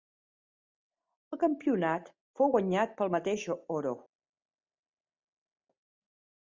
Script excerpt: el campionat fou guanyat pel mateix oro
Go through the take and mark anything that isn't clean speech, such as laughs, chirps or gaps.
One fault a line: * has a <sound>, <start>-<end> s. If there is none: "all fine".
all fine